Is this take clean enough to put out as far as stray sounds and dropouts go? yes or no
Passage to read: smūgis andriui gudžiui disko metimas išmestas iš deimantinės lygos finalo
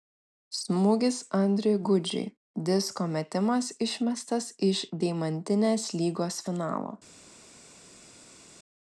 yes